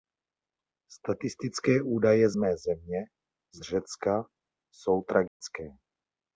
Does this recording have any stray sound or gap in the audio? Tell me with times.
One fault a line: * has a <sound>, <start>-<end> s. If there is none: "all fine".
* has a dropout, 5.3-5.4 s